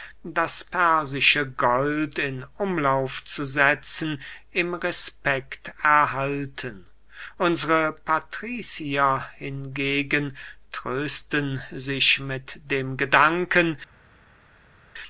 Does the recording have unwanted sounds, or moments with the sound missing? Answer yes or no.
no